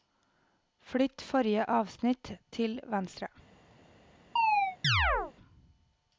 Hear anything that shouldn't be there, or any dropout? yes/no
yes